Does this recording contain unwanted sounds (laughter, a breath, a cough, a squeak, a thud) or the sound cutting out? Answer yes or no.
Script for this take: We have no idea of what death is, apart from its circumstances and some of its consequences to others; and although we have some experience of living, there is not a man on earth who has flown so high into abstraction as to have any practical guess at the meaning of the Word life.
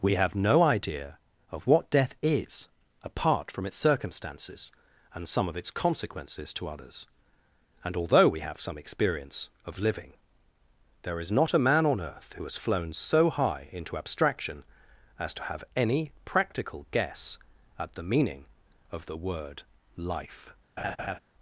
yes